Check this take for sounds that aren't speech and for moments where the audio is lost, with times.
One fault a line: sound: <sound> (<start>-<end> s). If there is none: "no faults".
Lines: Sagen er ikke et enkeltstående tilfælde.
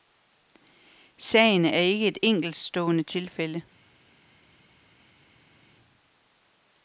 no faults